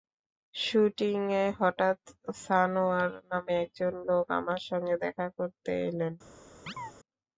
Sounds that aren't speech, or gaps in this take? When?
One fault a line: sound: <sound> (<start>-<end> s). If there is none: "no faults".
sound: chirp (6.7-6.9 s)